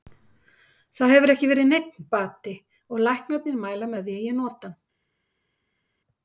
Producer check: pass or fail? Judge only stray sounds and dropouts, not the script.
pass